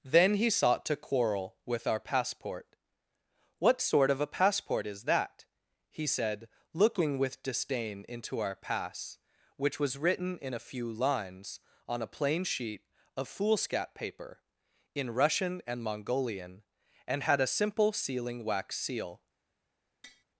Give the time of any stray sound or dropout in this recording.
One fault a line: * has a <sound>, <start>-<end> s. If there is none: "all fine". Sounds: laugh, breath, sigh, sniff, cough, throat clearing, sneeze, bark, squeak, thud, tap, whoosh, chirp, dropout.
* has a tap, 20.0-20.2 s